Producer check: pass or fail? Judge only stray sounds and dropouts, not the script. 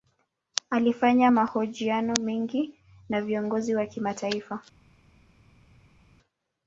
pass